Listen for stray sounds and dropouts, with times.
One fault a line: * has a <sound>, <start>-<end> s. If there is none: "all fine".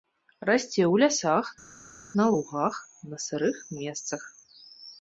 all fine